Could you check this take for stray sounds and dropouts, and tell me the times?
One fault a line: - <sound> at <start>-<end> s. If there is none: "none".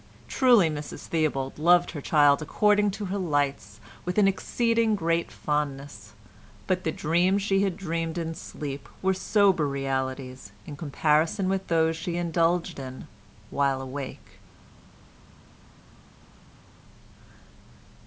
none